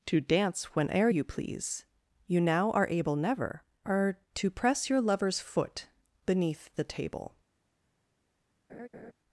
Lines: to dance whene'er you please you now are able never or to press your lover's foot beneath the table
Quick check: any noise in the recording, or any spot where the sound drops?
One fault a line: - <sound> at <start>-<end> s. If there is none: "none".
- laugh at 8.7-9.1 s